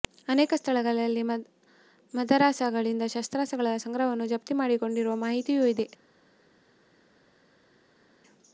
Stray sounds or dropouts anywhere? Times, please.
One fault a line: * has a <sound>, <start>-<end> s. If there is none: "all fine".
all fine